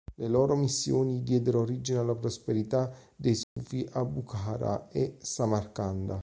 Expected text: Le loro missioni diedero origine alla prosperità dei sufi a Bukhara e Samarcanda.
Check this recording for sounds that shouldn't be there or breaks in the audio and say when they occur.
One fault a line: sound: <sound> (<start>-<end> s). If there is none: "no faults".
sound: dropout (3.4-3.6 s)